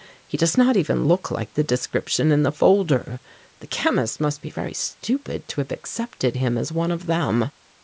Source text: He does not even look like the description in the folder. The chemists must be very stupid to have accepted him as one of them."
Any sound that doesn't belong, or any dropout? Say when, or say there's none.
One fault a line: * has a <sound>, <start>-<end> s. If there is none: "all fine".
all fine